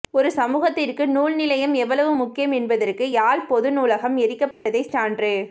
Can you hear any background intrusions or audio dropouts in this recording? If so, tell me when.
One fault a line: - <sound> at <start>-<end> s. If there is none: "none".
- dropout at 4.5-4.7 s